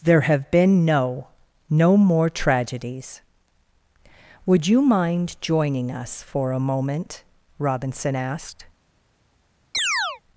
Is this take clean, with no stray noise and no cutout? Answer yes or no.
no